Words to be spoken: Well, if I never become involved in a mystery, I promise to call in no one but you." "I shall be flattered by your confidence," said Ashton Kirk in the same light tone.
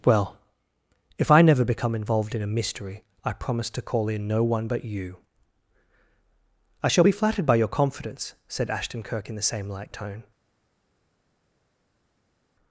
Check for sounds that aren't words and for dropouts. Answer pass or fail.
pass